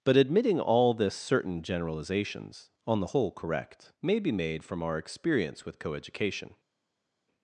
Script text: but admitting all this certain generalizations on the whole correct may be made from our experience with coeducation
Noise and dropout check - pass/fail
pass